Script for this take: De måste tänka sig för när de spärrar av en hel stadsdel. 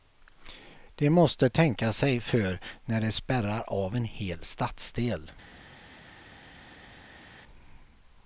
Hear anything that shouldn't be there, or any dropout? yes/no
no